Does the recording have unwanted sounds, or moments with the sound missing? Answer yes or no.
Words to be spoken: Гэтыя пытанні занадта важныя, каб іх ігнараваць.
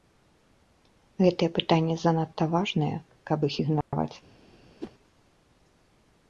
yes